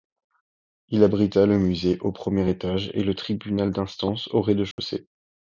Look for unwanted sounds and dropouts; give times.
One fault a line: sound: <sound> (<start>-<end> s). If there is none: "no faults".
sound: dropout (4.7-4.8 s)